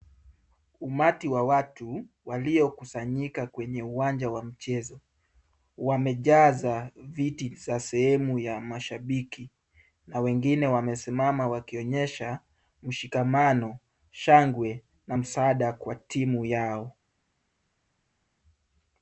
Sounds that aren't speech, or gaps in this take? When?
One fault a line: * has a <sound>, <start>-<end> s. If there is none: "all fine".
all fine